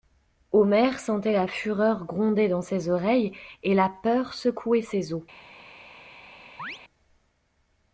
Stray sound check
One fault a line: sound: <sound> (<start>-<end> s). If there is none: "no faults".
sound: chirp (6.6-6.8 s)